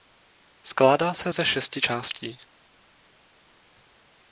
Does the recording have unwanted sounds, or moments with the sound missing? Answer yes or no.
no